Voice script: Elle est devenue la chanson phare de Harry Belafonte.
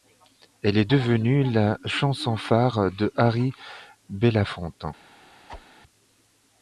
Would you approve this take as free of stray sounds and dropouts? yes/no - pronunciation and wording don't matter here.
no